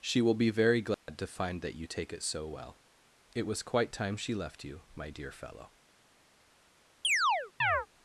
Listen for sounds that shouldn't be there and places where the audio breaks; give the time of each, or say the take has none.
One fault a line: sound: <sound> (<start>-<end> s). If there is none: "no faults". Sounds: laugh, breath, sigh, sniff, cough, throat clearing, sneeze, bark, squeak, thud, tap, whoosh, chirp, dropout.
sound: dropout (0.9-1.1 s)
sound: chirp (7.0-7.9 s)